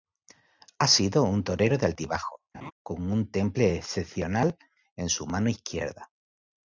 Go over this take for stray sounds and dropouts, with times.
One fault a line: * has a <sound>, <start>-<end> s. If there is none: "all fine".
* has a laugh, 2.5-2.7 s